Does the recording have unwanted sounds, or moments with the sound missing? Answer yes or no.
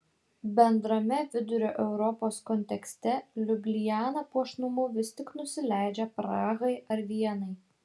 no